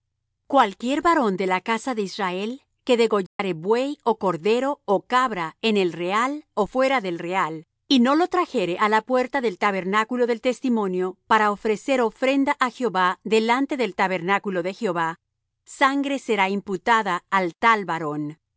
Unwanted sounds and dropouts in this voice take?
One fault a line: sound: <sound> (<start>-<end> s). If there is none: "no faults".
sound: dropout (3.3-3.4 s)